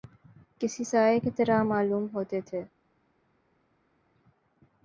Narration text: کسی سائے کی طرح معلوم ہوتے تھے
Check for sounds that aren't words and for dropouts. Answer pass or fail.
pass